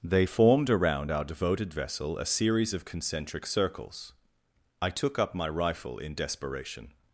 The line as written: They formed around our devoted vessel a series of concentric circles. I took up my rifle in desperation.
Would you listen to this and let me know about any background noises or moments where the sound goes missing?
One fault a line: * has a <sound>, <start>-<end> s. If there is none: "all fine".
all fine